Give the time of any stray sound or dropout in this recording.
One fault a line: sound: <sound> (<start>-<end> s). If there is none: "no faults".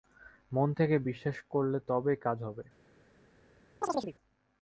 sound: chirp (3.8-4.1 s)